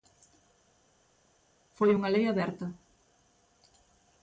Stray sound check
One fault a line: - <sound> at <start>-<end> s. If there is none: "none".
none